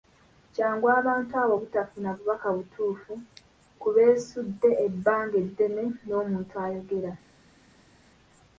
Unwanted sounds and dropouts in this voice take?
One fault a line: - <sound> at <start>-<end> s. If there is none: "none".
none